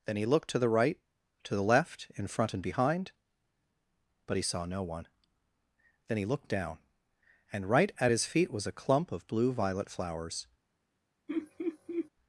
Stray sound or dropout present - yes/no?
yes